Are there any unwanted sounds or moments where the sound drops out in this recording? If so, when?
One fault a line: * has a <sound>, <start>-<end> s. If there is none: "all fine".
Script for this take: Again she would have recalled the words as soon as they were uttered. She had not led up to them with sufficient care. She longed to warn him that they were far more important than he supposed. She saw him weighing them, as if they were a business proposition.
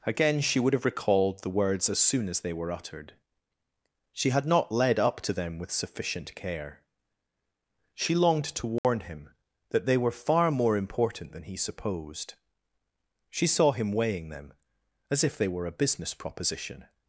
* has a dropout, 8.8-8.8 s